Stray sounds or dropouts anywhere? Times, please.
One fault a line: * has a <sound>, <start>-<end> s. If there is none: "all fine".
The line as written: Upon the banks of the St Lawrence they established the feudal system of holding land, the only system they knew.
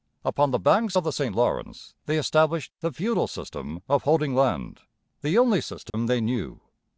* has a dropout, 5.9-5.9 s